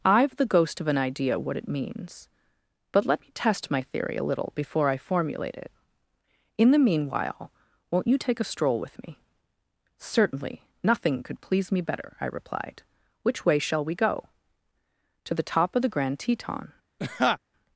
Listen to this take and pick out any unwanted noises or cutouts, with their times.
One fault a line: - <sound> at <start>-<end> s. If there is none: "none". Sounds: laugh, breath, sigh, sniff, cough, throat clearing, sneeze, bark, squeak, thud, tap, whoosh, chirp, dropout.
- laugh at 17.0-17.4 s